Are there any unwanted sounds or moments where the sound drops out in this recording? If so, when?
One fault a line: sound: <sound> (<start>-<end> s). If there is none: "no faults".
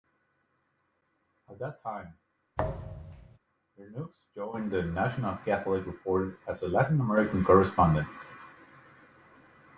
sound: thud (2.6-3.4 s)